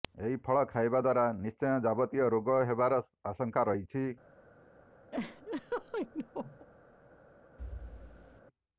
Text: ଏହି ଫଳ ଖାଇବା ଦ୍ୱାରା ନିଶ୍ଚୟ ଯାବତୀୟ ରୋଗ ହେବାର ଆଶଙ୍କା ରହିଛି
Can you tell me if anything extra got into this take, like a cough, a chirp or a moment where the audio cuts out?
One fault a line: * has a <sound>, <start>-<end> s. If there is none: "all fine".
* has a laugh, 5.1-6.7 s
* has a thud, 7.6-8.4 s